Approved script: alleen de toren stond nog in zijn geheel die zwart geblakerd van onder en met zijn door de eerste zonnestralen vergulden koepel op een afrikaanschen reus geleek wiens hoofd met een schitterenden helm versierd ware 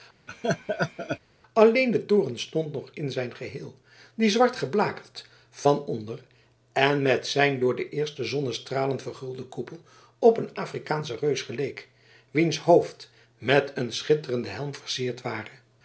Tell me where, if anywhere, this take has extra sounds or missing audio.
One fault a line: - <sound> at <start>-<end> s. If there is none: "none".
- laugh at 0.3-1.2 s